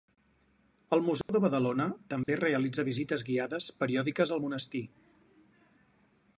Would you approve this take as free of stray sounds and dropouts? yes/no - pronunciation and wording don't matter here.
no